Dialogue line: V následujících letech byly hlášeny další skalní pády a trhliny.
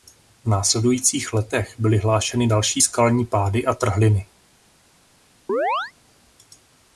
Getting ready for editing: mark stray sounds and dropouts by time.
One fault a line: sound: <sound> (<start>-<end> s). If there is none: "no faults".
sound: chirp (5.5-5.9 s)